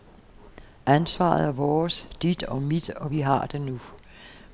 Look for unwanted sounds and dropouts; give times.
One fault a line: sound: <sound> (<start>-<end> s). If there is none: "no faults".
no faults